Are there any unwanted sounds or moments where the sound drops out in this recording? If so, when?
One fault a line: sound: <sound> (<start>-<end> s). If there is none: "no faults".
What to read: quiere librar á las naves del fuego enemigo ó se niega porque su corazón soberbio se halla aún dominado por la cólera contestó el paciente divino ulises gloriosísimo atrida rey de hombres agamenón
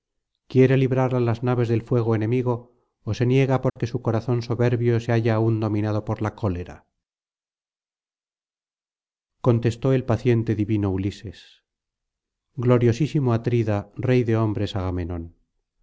sound: dropout (3.7-3.8 s)